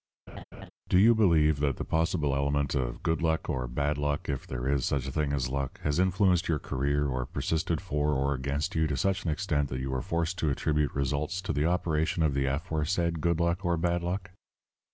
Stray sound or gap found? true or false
true